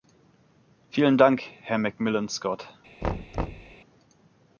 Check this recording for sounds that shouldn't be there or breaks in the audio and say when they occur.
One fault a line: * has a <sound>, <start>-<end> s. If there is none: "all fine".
* has a thud, 3.0-3.8 s